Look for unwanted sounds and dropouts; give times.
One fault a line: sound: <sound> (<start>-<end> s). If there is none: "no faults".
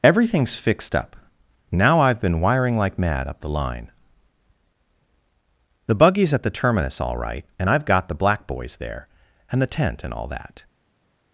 no faults